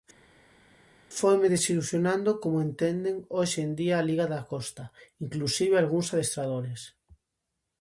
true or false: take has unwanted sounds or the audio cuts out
false